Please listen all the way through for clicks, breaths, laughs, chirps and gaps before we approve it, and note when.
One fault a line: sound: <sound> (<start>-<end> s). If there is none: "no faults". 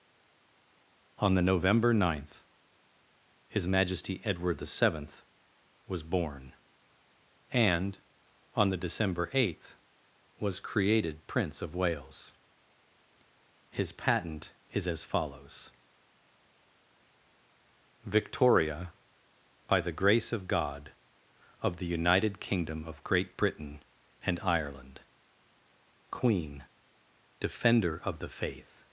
no faults